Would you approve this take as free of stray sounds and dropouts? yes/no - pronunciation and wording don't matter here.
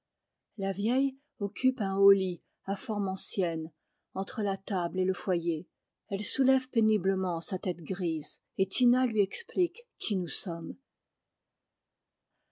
yes